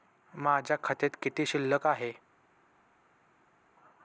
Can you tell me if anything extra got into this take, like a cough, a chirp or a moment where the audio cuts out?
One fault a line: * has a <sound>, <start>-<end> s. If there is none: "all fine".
all fine